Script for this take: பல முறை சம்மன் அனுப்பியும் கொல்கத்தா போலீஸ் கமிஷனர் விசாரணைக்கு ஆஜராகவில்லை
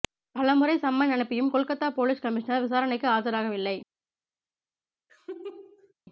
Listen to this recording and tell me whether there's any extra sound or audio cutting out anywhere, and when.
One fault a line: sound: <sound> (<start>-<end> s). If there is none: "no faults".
sound: laugh (5.1-5.9 s)